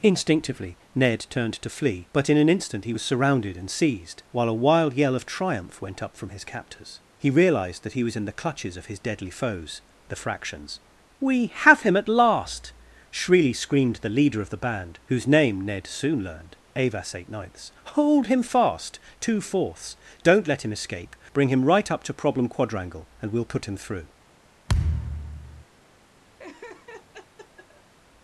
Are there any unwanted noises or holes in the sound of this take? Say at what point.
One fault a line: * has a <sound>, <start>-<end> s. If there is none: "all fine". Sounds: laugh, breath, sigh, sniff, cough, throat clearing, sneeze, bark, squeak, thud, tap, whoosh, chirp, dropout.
* has a thud, 24.7-25.6 s
* has a laugh, 26.4-27.9 s